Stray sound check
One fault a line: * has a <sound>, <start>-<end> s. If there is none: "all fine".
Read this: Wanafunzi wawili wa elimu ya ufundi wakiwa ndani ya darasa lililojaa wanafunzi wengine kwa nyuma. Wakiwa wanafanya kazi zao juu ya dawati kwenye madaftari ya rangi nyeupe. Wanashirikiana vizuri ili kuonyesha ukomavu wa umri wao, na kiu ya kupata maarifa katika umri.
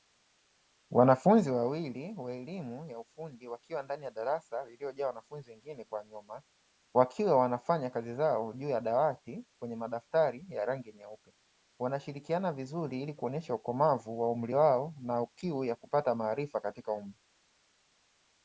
all fine